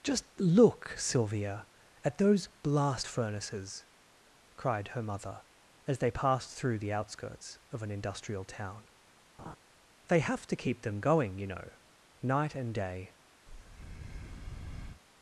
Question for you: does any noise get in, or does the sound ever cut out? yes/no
yes